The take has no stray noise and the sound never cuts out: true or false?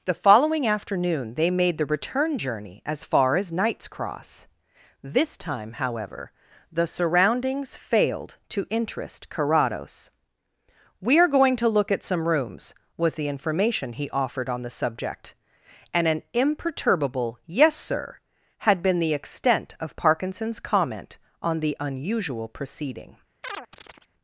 false